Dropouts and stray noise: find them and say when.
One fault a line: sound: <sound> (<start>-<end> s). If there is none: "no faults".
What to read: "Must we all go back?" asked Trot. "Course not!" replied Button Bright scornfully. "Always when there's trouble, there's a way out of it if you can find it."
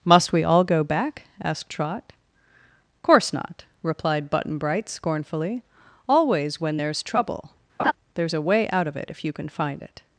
sound: laugh (7.8-7.9 s)